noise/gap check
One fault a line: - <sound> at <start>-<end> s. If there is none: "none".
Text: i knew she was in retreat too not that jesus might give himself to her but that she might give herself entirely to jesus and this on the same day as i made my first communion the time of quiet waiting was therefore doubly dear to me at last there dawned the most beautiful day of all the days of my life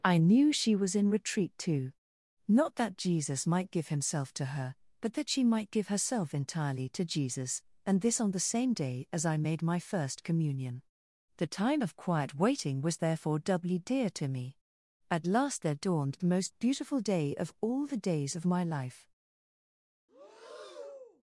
- breath at 20.1-21.2 s